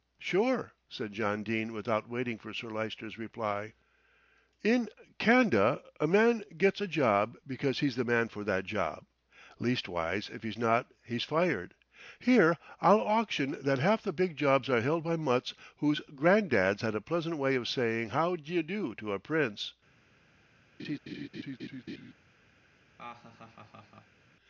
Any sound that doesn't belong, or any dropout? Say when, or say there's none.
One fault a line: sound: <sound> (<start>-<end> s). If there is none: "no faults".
sound: laugh (20.8-22.1 s)
sound: laugh (23.0-24.2 s)